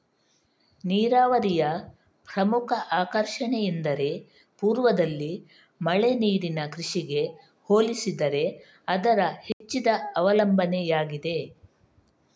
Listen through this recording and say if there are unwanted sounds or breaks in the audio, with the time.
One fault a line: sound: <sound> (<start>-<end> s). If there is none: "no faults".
sound: dropout (9.5-9.6 s)